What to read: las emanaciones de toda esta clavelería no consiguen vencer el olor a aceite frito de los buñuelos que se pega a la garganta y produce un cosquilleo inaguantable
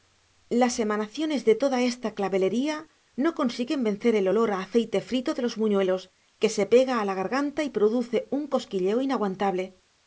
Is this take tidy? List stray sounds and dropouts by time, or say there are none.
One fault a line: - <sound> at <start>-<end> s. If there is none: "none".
none